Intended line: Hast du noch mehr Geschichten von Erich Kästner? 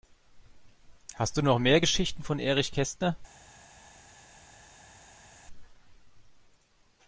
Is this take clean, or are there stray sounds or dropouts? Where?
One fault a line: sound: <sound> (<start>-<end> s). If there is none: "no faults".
no faults